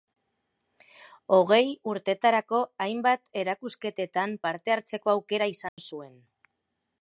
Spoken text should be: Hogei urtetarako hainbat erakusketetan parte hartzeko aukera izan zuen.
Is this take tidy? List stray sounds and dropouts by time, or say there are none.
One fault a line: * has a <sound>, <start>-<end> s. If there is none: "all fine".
* has a dropout, 5.7-5.8 s